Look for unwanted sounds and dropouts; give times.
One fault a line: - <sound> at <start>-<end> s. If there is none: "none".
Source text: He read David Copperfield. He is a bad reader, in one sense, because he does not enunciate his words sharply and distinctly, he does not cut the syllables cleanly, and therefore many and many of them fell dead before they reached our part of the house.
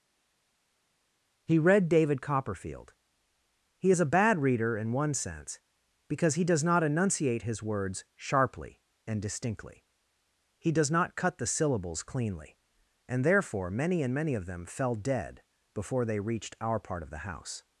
none